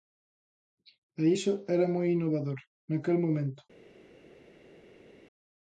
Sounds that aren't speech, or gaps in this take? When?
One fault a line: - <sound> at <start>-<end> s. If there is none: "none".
none